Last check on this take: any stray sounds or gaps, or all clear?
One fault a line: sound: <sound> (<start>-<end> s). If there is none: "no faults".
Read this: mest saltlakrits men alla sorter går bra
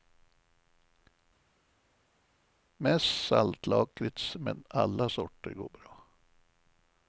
no faults